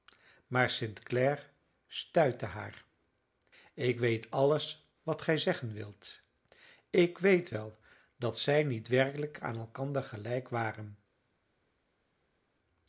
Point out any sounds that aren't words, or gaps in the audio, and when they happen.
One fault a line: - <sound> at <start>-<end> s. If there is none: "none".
none